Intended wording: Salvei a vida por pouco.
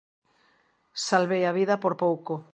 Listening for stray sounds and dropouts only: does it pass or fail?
pass